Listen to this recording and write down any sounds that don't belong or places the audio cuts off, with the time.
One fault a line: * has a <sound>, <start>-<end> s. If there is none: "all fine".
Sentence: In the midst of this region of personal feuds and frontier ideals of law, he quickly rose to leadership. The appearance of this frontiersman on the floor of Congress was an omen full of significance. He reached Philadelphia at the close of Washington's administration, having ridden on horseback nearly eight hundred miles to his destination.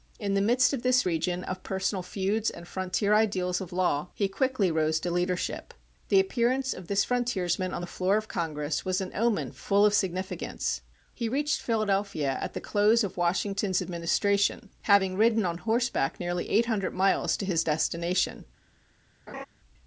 * has a laugh, 19.3-19.5 s